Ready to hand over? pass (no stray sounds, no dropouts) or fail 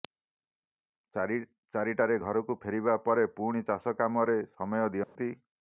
fail